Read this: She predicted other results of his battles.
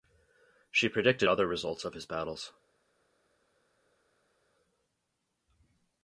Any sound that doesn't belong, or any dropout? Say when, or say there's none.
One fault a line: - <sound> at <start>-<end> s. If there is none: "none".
none